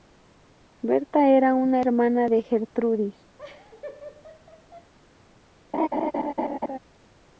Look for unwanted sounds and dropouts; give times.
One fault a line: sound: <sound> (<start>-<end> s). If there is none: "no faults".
sound: laugh (3.4-4.9 s)
sound: laugh (5.7-6.8 s)